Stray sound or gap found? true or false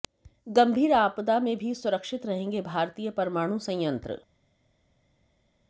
false